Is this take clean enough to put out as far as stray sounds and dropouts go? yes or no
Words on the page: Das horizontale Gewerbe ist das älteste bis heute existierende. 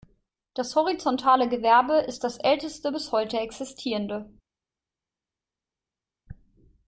yes